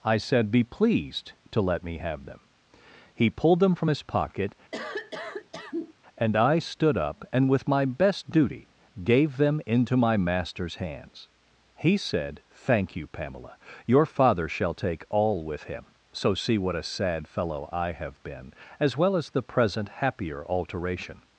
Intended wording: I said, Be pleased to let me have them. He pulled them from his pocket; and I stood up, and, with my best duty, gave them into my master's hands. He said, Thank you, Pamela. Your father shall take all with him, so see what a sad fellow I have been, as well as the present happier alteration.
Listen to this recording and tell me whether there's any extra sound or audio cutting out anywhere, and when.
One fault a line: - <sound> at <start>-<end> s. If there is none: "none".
- cough at 4.7-5.9 s